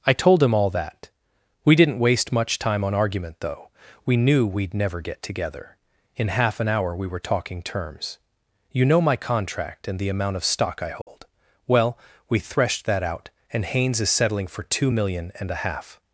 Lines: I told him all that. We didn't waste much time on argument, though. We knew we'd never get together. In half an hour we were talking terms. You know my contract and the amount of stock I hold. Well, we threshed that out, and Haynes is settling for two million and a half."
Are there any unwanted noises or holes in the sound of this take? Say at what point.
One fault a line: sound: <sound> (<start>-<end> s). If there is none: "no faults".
sound: dropout (11.0-11.1 s)